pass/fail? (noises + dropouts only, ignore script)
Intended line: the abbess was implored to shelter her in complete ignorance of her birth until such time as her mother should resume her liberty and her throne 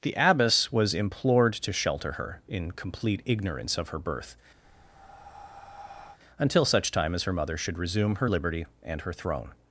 fail